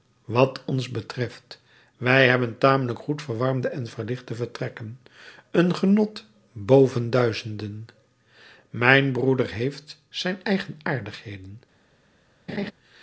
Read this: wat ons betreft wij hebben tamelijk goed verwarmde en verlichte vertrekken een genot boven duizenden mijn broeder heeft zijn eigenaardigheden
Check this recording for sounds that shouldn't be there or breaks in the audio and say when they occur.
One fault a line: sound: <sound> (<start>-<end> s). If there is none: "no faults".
sound: laugh (12.5-12.7 s)